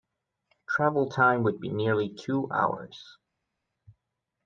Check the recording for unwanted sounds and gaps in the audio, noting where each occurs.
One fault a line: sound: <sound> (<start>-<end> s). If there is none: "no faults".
no faults